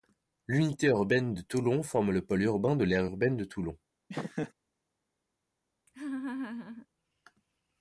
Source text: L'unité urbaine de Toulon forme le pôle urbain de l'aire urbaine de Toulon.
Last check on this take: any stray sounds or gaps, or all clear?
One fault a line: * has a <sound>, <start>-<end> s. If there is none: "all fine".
* has a laugh, 4.1-4.5 s
* has a laugh, 5.9-6.9 s